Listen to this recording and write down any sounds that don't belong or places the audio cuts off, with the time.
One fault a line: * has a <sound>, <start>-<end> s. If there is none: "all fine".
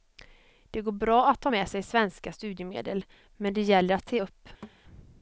* has a thud, 4.6-4.8 s